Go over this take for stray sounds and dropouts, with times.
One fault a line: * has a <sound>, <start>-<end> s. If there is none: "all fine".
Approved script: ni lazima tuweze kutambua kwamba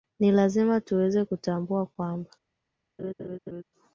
* has a laugh, 3.0-3.6 s